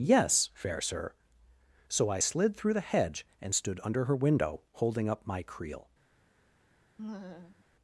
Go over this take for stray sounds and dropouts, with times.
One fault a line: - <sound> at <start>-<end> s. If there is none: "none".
- laugh at 7.0-7.6 s